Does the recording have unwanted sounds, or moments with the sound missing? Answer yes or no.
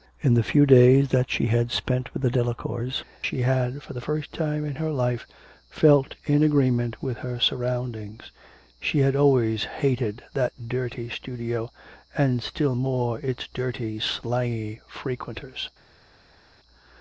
no